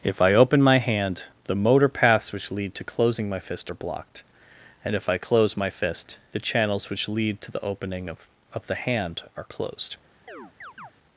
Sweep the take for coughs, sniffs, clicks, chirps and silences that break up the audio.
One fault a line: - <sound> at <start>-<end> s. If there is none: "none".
- chirp at 10.3-10.9 s